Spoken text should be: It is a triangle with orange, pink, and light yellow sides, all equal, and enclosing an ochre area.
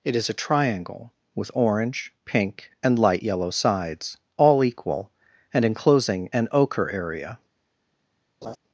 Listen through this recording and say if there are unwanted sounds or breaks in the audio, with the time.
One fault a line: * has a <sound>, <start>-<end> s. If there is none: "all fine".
* has a laugh, 8.4-8.6 s